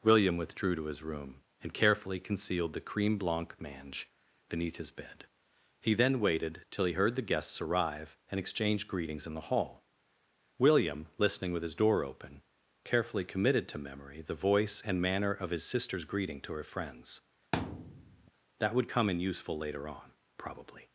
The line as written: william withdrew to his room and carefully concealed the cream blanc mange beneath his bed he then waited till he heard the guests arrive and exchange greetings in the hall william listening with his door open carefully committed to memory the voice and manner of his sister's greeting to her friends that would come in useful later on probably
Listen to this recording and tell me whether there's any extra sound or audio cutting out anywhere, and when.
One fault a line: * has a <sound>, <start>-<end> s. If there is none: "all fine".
* has a thud, 17.5-18.3 s